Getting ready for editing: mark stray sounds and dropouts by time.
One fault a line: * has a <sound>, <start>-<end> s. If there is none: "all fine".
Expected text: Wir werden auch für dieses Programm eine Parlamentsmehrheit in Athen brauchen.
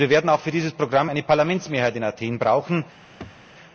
* has a throat clearing, 3.2-3.4 s